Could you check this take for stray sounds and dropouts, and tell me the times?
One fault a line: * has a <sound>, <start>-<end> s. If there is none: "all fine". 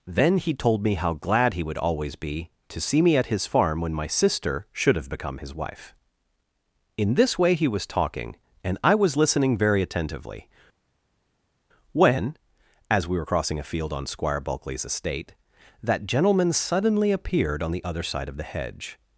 all fine